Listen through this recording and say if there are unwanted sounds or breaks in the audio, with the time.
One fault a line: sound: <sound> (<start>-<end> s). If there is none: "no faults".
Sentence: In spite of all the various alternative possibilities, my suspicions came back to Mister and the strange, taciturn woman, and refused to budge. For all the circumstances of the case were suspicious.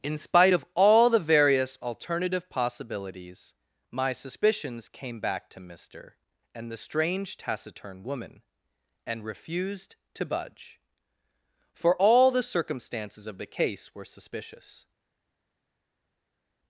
no faults